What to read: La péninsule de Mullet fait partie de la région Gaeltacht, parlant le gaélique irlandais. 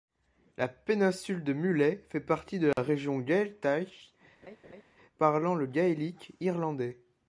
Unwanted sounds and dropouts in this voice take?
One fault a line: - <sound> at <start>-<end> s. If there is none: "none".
- dropout at 2.7-2.8 s
- laugh at 4.4-4.8 s